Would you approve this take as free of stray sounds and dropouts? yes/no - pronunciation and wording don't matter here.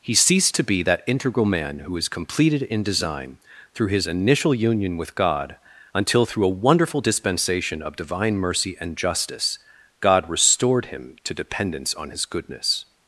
yes